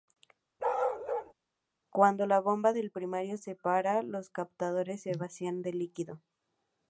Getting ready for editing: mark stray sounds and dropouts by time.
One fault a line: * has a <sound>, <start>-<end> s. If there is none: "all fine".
* has a bark, 0.6-1.3 s